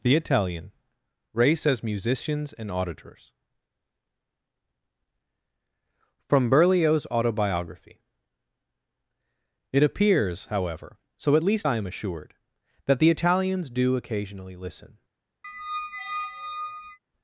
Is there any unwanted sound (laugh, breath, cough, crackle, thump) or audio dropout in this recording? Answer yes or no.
yes